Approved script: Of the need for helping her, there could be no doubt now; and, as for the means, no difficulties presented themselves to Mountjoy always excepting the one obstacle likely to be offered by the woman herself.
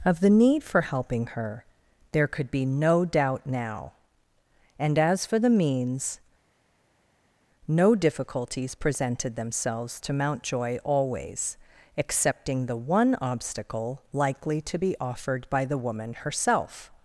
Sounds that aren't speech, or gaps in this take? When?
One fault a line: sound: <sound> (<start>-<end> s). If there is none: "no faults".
no faults